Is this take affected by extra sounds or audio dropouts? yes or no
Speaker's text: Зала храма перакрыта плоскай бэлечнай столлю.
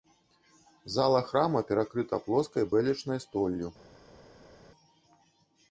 no